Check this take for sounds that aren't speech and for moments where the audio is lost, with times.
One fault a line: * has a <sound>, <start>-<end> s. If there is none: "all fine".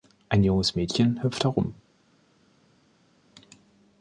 all fine